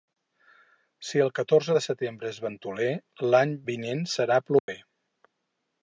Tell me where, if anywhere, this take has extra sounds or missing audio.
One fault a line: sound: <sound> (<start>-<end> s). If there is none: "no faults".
sound: dropout (4.6-4.7 s)